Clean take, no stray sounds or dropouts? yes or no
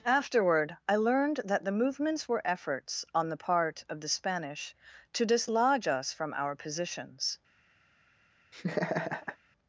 no